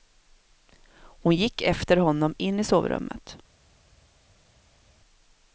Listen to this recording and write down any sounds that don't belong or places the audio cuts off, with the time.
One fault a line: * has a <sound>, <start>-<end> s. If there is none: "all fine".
all fine